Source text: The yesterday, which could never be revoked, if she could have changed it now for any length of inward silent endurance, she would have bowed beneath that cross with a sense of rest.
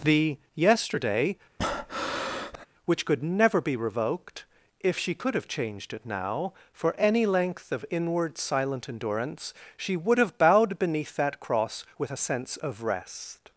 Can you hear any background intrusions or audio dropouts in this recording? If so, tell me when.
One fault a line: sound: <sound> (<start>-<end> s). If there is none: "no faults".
sound: breath (1.6-2.7 s)